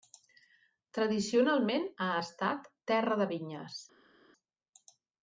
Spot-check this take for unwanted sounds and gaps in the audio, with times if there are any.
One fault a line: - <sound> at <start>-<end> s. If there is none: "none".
none